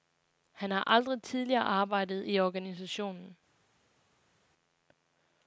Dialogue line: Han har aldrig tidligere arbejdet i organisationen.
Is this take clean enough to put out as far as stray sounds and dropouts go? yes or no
yes